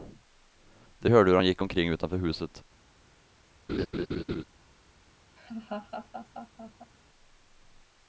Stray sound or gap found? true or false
true